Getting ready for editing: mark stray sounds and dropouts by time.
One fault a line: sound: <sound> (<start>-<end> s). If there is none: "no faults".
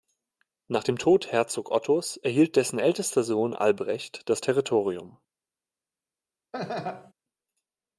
sound: laugh (6.5-7.1 s)